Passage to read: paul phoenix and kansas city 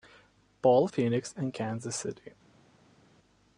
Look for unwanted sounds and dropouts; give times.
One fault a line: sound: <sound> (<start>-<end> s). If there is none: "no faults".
no faults